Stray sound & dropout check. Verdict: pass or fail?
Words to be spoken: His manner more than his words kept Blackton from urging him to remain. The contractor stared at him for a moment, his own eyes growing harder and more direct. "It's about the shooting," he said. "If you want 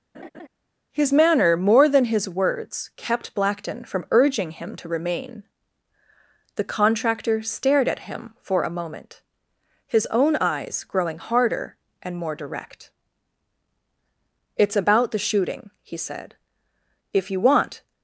fail